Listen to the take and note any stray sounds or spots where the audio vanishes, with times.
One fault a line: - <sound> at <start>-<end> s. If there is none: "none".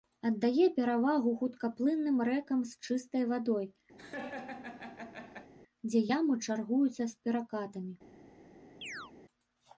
- laugh at 4.0-5.5 s
- chirp at 8.8-9.1 s